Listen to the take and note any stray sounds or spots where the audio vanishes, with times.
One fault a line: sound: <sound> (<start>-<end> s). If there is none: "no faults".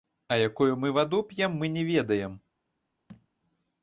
sound: thud (3.1-3.3 s)